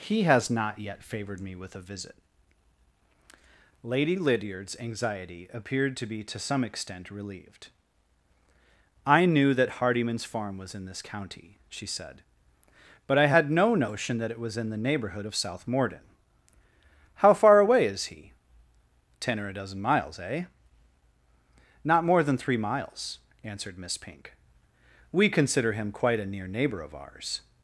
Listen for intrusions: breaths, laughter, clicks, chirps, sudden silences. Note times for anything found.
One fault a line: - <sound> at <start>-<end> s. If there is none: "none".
none